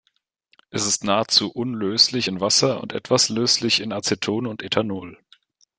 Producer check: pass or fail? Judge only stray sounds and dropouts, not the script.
pass